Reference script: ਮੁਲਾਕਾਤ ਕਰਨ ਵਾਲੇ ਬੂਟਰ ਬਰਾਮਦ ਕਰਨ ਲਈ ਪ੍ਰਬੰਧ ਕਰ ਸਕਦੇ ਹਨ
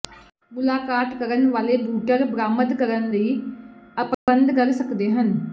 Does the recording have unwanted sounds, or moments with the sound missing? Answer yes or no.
yes